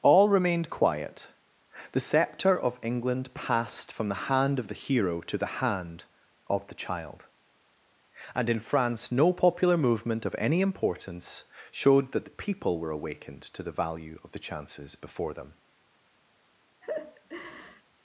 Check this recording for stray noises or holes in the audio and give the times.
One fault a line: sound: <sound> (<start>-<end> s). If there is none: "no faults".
sound: laugh (16.8-17.8 s)